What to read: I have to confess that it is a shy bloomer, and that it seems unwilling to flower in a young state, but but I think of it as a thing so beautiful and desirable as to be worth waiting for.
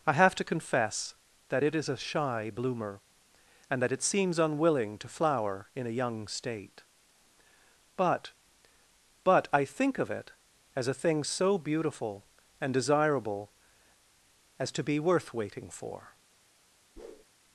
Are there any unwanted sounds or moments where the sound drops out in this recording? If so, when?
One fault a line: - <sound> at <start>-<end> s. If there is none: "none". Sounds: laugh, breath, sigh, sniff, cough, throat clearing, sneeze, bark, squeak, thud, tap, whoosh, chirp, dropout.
- whoosh at 17.0-17.2 s